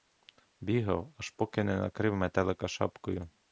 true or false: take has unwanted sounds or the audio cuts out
false